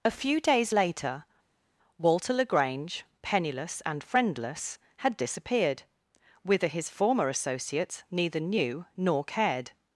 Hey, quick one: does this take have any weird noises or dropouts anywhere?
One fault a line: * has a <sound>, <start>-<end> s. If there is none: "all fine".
all fine